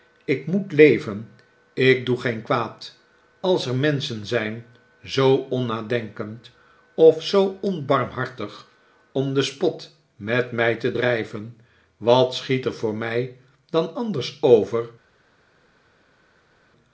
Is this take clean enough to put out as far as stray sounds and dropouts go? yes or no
yes